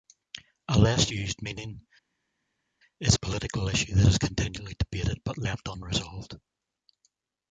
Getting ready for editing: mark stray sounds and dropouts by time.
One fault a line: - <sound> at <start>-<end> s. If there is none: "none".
none